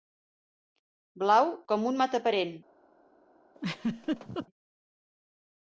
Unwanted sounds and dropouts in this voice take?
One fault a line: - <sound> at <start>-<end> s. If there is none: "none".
- laugh at 3.5-4.5 s